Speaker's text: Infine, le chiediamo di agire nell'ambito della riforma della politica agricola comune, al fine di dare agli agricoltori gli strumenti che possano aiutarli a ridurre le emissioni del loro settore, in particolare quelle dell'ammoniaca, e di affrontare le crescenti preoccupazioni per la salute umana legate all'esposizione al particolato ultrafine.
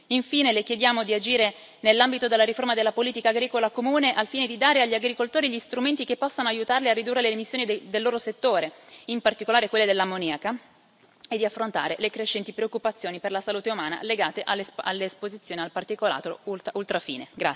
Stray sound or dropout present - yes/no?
no